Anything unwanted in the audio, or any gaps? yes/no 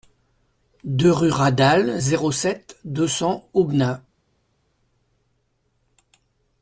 no